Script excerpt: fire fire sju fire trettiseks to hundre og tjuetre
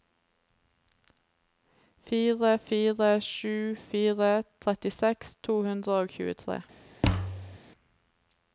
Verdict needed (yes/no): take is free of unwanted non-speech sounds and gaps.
no